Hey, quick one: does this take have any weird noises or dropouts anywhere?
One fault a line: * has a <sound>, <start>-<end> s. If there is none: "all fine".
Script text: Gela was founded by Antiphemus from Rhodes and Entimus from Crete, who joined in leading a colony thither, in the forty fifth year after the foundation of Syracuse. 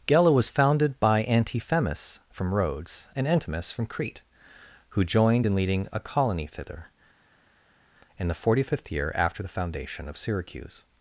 all fine